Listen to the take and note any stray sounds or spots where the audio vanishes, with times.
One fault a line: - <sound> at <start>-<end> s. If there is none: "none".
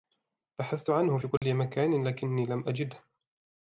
- dropout at 1.4-1.4 s